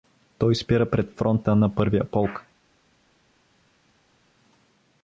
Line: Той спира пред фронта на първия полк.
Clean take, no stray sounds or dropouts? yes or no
yes